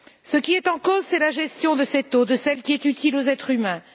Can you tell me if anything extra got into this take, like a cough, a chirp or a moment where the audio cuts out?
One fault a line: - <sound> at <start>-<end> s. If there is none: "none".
none